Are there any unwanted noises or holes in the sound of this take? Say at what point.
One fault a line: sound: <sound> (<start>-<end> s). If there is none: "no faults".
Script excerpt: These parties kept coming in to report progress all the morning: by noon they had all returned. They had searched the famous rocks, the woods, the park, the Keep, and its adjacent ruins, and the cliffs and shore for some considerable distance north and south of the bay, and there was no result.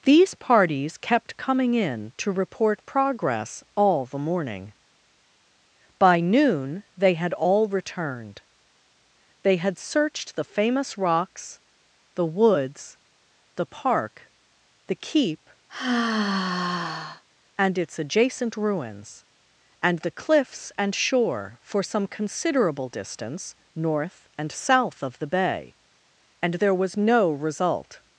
sound: sigh (15.7-17.2 s)